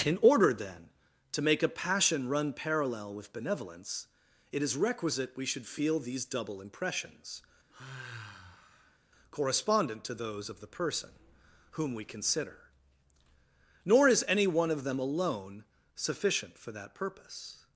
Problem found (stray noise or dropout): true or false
true